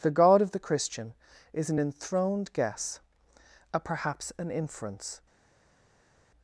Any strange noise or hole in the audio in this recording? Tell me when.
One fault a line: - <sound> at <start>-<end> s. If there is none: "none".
none